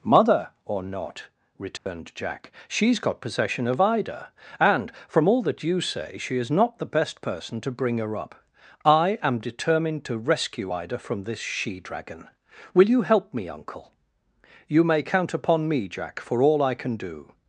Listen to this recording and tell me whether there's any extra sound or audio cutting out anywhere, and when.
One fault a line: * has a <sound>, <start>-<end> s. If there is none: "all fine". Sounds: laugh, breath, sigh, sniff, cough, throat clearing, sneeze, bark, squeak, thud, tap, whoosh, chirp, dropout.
* has a dropout, 1.8-1.9 s